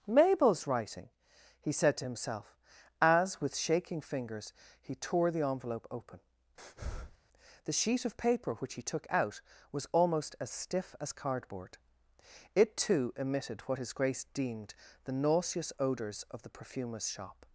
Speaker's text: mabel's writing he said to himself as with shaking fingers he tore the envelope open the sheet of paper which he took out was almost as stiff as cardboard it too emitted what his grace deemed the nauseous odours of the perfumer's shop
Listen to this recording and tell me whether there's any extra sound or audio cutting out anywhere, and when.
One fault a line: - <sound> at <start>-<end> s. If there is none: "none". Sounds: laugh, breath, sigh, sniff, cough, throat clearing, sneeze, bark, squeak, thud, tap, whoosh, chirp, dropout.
- breath at 6.6-7.2 s